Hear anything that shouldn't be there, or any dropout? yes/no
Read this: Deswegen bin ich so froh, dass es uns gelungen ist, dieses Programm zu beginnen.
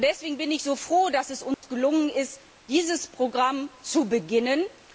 yes